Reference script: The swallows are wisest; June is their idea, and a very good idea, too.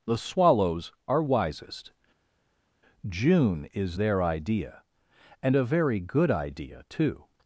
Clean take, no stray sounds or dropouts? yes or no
yes